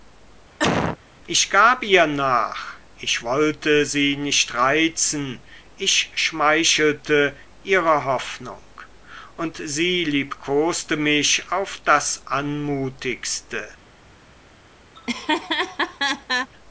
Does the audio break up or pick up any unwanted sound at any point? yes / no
yes